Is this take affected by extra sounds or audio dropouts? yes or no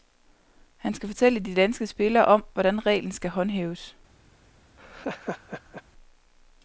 yes